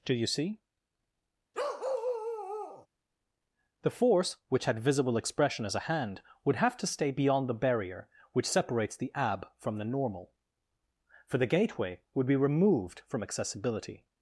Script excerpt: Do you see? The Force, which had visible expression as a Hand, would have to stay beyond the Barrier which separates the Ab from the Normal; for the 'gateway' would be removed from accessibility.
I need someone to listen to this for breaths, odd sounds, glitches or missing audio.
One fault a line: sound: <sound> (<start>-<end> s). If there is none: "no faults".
sound: bark (1.5-2.9 s)